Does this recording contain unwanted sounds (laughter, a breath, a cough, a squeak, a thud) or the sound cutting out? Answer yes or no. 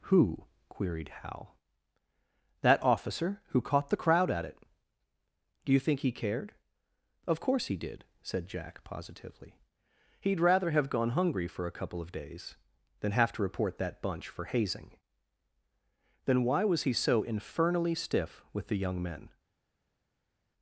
no